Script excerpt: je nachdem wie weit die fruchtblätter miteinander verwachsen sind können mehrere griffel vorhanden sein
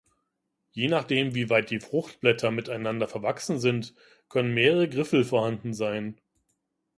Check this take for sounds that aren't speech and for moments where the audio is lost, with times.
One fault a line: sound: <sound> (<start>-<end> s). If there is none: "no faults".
no faults